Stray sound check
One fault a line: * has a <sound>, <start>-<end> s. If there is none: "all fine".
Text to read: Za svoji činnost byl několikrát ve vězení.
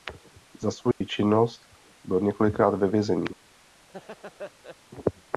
* has a dropout, 0.9-1.0 s
* has a laugh, 3.9-4.8 s